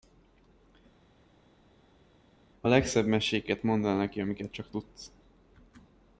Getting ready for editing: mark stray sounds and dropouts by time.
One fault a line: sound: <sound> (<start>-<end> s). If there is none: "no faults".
no faults